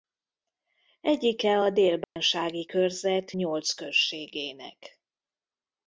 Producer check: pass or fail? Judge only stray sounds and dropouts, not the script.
fail